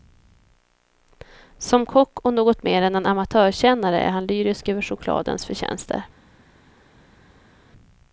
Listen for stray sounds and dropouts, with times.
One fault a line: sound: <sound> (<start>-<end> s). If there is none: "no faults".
no faults